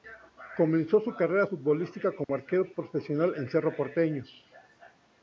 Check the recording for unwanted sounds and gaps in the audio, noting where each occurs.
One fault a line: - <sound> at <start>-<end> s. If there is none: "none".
- dropout at 2.2-2.3 s